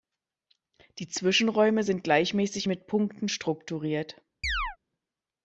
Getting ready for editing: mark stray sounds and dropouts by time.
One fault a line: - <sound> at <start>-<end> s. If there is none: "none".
- chirp at 4.4-4.8 s